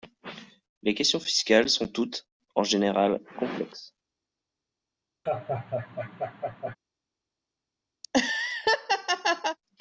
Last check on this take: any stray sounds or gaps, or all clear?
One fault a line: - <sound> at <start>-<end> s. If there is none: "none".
- laugh at 5.3-6.8 s
- laugh at 8.0-9.6 s